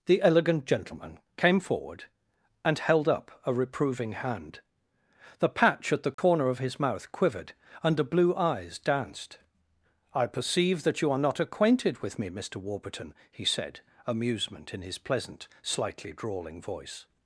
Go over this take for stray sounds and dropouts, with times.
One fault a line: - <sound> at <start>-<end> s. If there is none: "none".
- dropout at 6.1-6.2 s